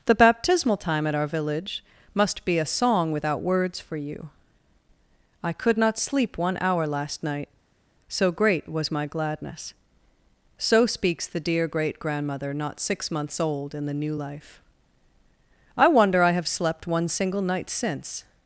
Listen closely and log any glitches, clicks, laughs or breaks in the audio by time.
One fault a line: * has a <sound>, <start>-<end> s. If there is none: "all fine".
all fine